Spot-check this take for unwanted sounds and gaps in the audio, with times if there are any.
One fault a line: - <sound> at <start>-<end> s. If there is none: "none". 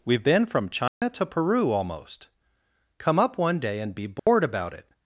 - dropout at 0.9-1.0 s
- dropout at 4.2-4.3 s